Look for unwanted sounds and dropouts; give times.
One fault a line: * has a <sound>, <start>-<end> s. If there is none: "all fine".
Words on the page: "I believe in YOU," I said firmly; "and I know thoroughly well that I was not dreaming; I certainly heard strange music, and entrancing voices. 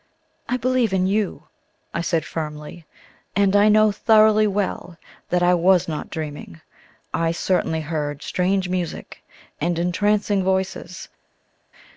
all fine